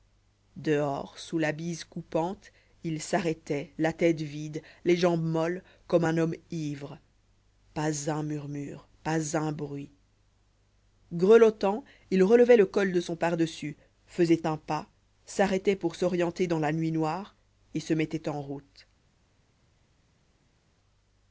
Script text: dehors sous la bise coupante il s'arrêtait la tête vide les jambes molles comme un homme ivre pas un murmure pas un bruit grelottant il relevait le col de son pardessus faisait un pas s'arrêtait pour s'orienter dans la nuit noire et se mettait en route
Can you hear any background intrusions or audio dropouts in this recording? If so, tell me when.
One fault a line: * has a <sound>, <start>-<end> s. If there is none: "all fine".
all fine